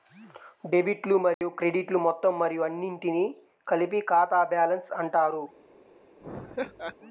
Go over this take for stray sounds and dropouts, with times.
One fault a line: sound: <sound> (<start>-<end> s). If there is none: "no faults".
sound: dropout (1.3-1.4 s)
sound: laugh (6.2-7.0 s)